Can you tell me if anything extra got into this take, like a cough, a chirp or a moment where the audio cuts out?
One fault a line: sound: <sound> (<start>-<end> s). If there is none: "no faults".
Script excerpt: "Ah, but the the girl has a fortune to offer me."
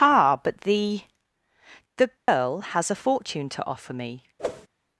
sound: dropout (2.2-2.3 s)
sound: whoosh (4.4-4.7 s)